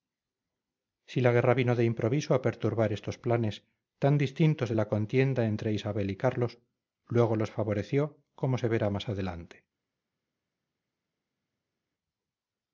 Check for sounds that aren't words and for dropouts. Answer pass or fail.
pass